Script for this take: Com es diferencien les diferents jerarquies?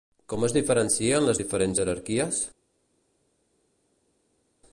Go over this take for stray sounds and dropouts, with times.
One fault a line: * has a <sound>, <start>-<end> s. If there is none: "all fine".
all fine